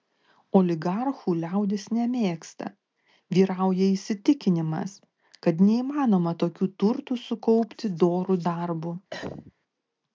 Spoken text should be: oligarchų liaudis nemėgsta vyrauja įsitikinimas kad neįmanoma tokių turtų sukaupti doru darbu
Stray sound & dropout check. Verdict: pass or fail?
fail